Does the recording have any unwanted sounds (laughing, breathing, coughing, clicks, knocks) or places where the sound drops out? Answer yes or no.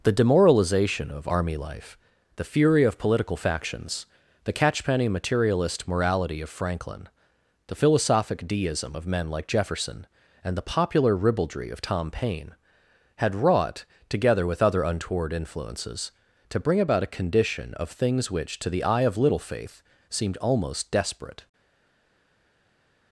no